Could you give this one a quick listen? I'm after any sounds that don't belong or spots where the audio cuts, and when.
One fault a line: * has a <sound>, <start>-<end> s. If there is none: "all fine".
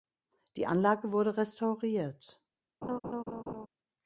* has a laugh, 2.8-3.7 s